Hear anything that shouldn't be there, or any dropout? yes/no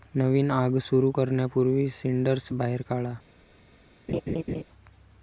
yes